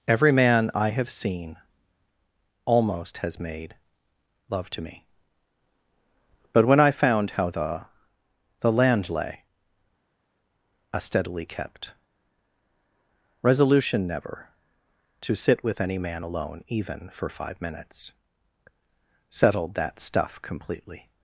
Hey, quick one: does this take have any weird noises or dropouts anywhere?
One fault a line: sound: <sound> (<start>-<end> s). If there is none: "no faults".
no faults